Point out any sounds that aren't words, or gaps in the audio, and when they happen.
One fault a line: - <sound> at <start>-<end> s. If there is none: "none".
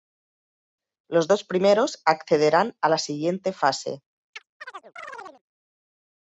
- chirp at 4.3-5.4 s